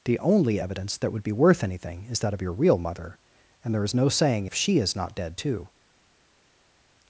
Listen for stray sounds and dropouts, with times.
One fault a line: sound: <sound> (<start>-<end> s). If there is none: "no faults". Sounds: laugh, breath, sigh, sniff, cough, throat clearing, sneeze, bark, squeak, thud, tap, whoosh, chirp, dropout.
no faults